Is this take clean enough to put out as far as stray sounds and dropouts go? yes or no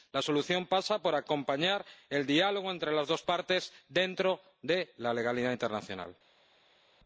yes